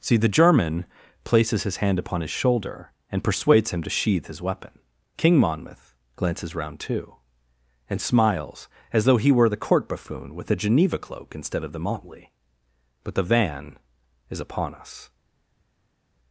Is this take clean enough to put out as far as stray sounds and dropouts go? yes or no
yes